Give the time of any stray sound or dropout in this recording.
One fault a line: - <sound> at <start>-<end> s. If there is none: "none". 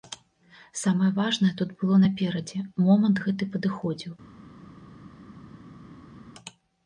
none